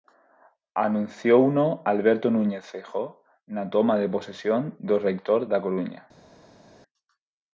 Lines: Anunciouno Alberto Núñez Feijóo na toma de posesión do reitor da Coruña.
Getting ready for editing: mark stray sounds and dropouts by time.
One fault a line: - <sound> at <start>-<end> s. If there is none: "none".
none